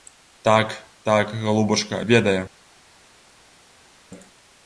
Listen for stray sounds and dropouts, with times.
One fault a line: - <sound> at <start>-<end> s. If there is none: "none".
none